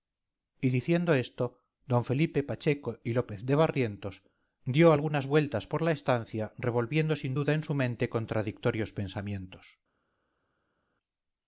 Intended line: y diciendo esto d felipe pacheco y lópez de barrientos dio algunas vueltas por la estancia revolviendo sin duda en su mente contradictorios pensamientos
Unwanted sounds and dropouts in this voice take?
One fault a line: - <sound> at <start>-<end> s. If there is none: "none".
none